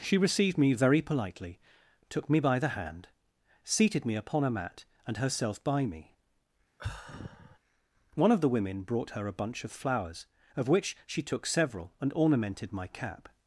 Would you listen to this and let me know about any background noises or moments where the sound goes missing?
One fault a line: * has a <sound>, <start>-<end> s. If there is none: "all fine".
* has a sigh, 6.8-7.6 s